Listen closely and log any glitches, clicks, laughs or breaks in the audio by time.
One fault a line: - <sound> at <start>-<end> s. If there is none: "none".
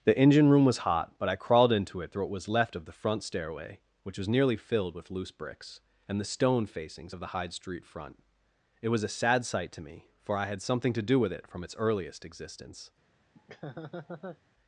- laugh at 13.3-14.4 s